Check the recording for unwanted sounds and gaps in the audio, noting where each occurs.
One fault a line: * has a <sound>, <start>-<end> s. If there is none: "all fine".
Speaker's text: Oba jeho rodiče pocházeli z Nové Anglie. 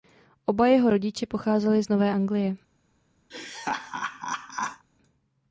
* has a laugh, 3.3-4.9 s